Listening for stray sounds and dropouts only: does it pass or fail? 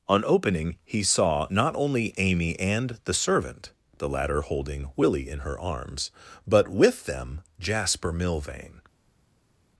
pass